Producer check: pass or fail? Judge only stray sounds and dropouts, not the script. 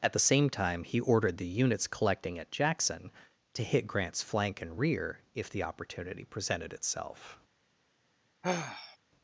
fail